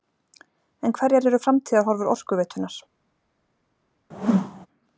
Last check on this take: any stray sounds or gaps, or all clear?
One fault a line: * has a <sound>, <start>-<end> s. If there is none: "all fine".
* has a whoosh, 4.1-4.7 s